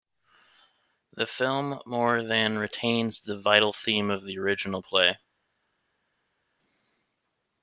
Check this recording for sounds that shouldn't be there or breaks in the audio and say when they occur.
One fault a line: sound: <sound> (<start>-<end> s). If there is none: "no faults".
no faults